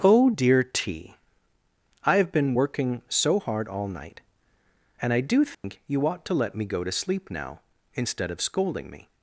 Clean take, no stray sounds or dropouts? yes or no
no